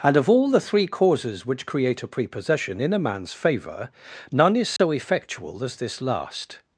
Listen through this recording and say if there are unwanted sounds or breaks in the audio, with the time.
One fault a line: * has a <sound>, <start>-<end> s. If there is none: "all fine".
* has a dropout, 4.8-4.8 s